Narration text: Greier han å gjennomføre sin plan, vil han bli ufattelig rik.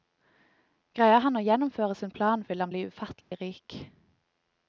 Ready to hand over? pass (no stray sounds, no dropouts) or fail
fail